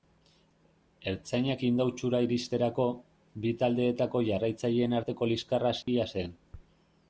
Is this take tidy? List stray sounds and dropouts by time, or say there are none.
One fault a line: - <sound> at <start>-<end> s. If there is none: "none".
- dropout at 5.8-5.9 s